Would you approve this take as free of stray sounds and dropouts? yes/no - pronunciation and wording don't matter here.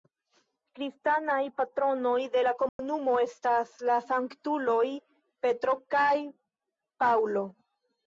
no